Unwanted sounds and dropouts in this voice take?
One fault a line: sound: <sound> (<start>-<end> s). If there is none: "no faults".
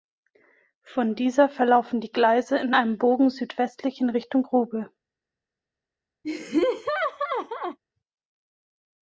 sound: laugh (6.2-7.8 s)